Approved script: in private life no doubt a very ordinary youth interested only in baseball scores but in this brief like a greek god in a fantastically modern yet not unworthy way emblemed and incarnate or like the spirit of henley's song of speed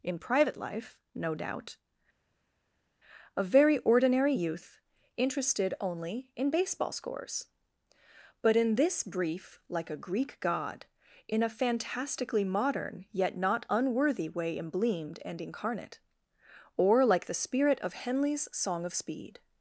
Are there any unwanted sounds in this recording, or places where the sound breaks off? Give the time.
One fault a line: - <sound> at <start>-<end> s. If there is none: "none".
none